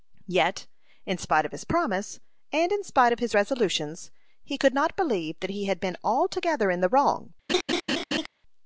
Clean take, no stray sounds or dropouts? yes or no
no